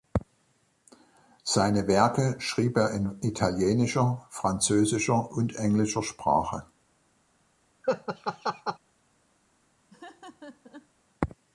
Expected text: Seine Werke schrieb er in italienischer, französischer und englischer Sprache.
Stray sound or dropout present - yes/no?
yes